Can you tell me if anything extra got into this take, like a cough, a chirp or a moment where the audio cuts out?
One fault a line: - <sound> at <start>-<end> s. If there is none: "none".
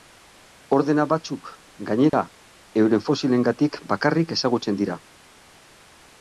- dropout at 2.1-2.1 s